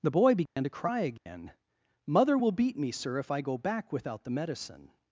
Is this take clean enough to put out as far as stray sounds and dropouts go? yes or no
no